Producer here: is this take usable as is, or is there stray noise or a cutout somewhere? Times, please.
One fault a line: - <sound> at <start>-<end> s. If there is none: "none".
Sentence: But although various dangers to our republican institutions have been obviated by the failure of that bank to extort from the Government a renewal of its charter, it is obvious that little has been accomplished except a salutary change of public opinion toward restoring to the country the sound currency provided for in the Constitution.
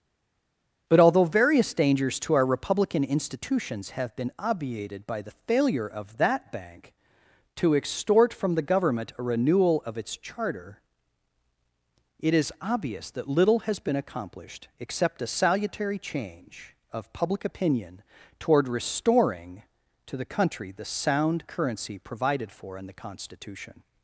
none